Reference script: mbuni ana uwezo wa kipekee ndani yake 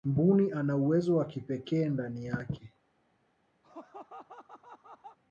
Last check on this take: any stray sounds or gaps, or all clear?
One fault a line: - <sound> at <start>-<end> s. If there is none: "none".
- laugh at 3.6-5.2 s